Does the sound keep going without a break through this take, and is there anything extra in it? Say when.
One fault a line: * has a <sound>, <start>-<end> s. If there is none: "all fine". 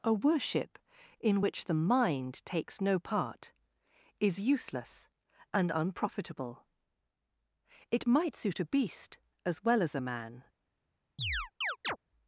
* has a chirp, 11.2-12.0 s